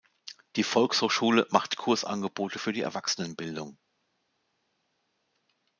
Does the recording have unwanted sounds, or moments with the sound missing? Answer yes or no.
no